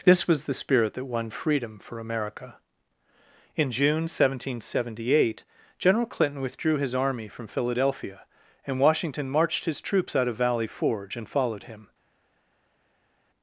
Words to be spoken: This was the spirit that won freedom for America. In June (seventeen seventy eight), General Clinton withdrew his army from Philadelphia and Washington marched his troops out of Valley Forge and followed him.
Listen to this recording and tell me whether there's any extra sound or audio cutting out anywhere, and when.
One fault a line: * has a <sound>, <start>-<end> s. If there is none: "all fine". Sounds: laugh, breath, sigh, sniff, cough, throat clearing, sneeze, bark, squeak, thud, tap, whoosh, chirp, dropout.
all fine